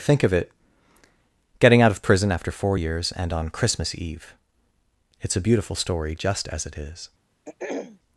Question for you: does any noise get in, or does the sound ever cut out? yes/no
yes